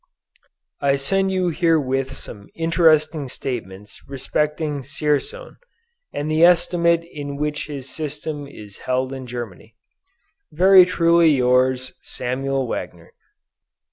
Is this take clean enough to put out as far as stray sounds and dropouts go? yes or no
yes